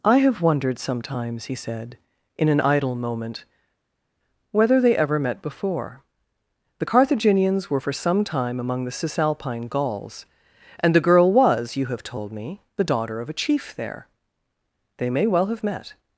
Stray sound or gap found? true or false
false